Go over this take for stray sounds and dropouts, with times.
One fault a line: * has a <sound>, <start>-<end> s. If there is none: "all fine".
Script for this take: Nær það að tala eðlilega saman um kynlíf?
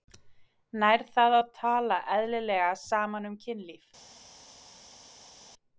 all fine